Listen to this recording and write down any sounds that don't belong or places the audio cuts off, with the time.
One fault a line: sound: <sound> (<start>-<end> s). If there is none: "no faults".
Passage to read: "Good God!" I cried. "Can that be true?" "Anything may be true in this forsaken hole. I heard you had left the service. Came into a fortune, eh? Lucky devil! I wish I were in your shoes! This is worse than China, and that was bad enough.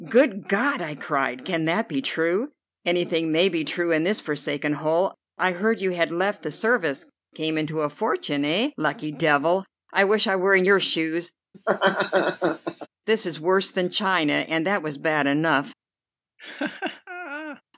sound: laugh (11.5-12.9 s)
sound: laugh (16.4-17.6 s)